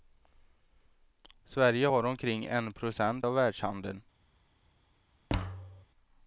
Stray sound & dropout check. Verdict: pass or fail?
fail